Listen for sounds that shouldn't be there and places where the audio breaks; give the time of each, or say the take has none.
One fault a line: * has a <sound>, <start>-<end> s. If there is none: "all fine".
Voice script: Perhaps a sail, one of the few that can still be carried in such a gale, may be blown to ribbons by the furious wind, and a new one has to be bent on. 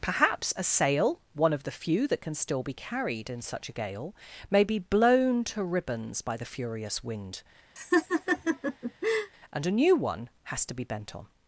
* has a laugh, 7.8-9.3 s